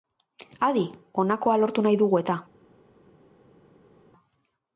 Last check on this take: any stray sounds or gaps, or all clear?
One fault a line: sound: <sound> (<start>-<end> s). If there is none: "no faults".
no faults